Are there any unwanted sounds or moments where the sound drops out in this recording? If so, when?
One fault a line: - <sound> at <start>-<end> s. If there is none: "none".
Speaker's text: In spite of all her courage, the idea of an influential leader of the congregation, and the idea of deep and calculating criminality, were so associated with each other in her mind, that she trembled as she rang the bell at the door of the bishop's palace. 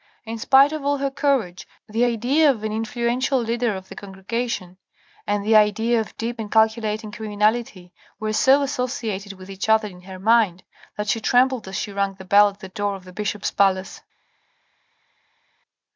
none